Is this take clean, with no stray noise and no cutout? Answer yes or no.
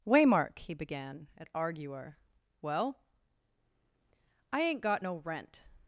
yes